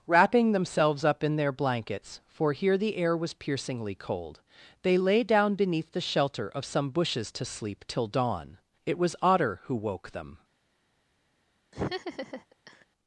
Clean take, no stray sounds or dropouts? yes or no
no